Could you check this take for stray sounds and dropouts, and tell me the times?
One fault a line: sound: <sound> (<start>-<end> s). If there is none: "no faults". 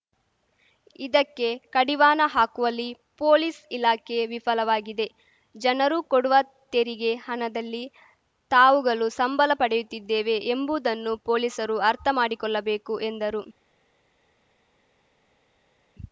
no faults